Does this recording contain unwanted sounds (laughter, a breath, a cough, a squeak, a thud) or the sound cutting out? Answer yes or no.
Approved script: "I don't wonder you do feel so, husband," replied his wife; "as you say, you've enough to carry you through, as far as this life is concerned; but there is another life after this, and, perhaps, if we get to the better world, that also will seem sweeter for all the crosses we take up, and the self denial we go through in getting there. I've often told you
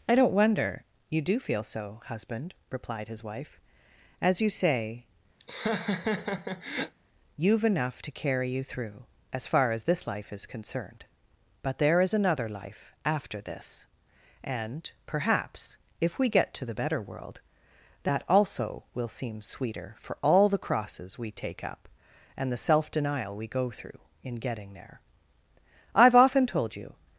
yes